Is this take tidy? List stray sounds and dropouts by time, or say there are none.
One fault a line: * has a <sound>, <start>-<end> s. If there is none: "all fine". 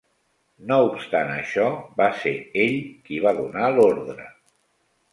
all fine